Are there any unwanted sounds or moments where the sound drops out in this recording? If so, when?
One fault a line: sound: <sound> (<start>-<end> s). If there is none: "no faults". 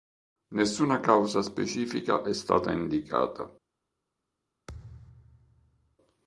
sound: thud (4.7-6.0 s)